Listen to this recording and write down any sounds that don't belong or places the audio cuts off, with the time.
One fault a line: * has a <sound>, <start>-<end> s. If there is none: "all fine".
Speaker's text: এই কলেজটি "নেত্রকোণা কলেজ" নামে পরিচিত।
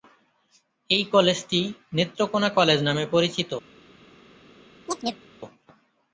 * has a chirp, 4.9-5.3 s